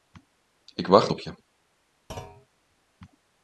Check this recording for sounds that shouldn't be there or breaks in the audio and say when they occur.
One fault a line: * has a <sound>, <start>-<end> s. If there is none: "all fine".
* has a thud, 2.1-2.5 s